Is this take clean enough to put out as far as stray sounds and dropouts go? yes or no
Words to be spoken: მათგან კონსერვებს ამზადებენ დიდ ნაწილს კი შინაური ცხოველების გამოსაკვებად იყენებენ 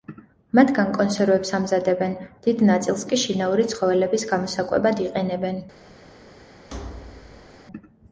no